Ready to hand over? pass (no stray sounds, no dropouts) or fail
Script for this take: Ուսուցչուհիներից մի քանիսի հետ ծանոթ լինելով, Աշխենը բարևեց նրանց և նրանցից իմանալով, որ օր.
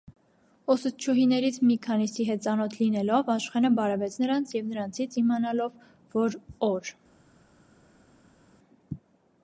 pass